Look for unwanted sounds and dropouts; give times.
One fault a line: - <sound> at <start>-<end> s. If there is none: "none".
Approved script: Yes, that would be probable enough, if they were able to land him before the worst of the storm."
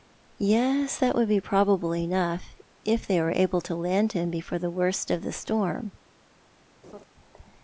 - laugh at 6.8-7.0 s